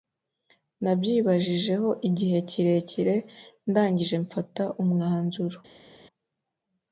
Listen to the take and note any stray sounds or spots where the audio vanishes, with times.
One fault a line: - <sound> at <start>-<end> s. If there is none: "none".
none